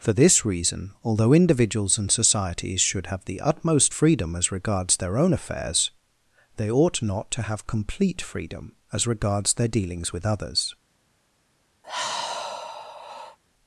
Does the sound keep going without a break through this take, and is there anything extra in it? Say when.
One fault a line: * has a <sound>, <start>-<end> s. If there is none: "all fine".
* has a sigh, 11.8-13.4 s